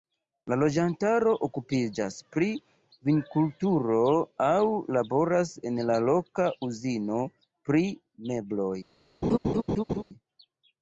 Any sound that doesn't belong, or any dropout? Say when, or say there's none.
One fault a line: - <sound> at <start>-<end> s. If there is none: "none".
- laugh at 9.2-10.0 s